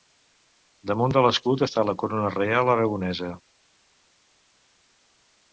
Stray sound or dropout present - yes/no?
no